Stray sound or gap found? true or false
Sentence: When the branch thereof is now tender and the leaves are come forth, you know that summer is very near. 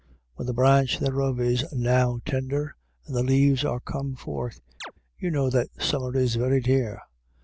true